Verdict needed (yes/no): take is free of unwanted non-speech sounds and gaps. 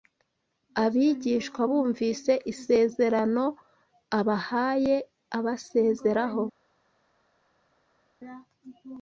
yes